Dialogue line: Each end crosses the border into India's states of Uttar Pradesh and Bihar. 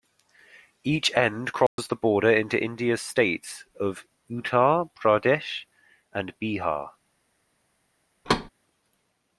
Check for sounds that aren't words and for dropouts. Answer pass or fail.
fail